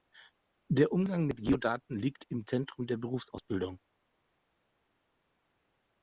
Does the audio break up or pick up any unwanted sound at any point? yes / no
no